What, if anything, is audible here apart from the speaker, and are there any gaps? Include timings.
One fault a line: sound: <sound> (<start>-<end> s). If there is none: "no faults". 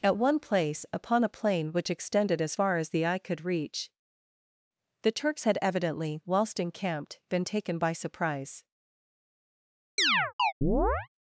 sound: chirp (10.0-11.1 s)